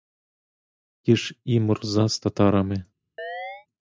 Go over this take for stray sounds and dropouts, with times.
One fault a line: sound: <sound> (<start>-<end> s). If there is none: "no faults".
sound: chirp (3.2-3.7 s)